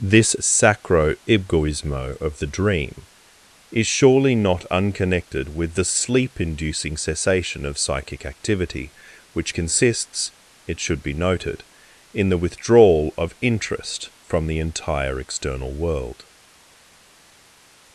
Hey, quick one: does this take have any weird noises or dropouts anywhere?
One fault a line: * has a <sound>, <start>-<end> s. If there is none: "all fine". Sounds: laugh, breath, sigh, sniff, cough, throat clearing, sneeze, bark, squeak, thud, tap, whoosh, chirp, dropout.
all fine